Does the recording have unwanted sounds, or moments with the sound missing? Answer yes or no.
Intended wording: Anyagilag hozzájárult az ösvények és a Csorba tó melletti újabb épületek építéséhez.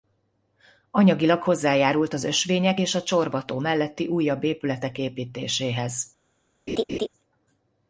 yes